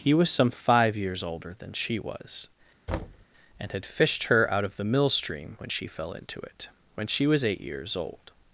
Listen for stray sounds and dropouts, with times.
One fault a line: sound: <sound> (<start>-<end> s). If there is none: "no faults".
sound: thud (2.9-3.3 s)